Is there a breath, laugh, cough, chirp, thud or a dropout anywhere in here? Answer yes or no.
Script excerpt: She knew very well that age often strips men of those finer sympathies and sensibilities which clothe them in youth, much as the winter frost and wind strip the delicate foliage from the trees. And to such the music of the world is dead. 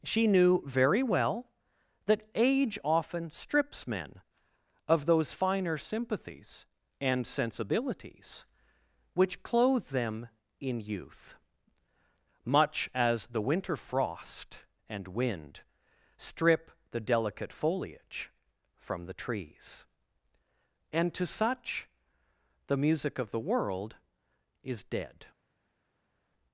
no